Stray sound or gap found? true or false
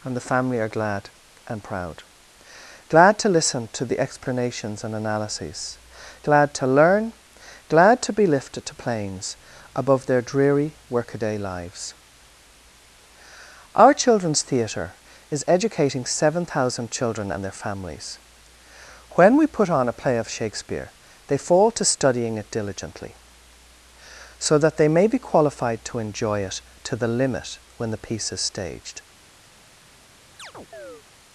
true